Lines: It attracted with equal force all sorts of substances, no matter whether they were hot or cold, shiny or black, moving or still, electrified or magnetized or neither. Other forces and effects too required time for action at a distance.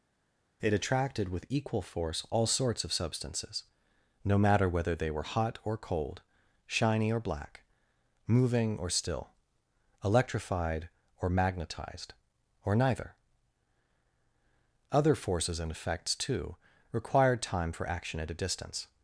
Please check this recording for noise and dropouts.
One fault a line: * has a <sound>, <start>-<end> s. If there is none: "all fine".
all fine